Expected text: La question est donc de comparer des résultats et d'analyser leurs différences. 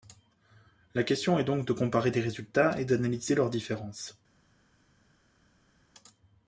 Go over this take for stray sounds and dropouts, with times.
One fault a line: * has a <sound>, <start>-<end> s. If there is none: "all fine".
all fine